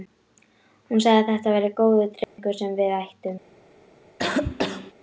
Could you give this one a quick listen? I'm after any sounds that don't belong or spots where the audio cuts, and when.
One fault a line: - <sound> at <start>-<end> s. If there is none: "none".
- dropout at 2.2-2.4 s
- cough at 4.2-4.9 s